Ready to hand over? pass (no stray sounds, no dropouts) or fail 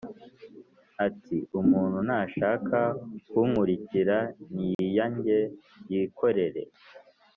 fail